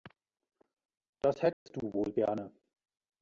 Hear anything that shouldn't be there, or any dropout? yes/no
yes